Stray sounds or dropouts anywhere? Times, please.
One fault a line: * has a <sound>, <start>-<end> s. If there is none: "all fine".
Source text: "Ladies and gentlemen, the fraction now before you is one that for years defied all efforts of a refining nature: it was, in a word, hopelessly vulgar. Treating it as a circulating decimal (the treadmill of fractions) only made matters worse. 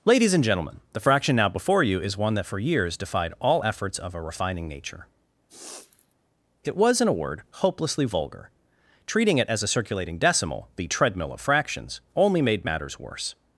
* has a sniff, 5.5-6.1 s